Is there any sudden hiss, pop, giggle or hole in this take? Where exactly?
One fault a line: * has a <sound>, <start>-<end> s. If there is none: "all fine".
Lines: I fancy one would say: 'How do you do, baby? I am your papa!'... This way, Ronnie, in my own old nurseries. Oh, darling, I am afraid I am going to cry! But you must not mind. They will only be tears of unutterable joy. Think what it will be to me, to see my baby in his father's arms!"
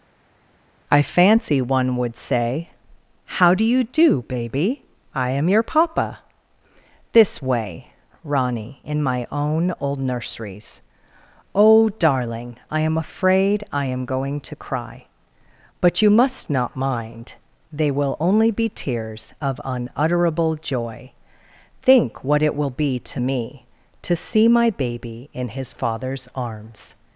all fine